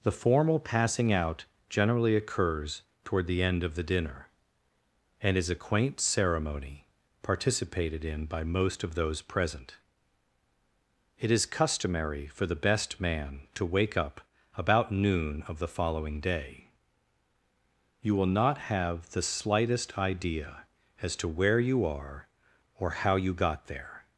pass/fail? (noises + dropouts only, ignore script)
pass